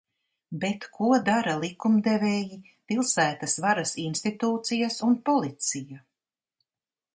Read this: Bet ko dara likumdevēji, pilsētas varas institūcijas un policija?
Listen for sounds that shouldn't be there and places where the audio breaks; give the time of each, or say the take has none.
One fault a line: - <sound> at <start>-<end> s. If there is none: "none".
none